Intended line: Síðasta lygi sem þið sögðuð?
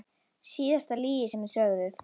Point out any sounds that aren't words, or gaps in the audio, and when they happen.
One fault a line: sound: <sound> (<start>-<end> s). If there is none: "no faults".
no faults